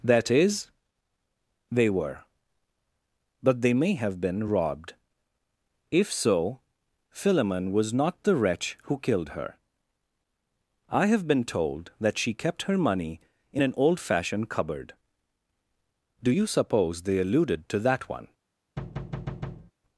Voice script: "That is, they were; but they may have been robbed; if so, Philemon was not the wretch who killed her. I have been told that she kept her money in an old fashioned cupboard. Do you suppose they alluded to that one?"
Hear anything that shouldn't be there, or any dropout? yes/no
yes